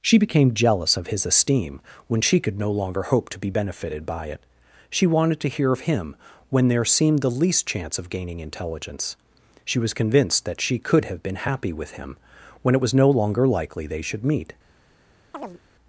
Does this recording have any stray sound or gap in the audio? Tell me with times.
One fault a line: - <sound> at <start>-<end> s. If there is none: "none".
- chirp at 15.3-15.6 s